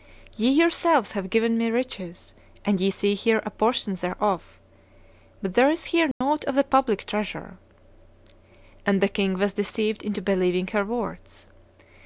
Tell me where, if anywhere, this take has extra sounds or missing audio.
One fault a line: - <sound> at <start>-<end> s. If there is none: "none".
- dropout at 6.1-6.2 s